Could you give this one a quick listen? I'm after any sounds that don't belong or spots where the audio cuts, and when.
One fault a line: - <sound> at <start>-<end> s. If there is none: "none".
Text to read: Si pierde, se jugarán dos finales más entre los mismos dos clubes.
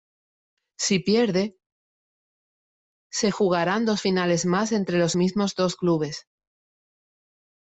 none